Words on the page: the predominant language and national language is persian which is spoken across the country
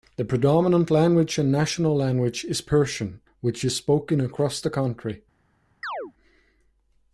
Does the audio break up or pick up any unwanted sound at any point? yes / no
yes